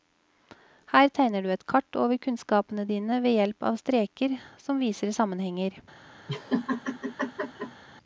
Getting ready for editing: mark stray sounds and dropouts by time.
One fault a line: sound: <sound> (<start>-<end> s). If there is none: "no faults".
sound: laugh (6.3-7.8 s)